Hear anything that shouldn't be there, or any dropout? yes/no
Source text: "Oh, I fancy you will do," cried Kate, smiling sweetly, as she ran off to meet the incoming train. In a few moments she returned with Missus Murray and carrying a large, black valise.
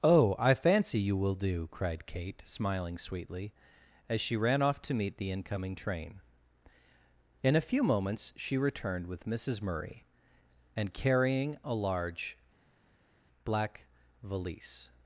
no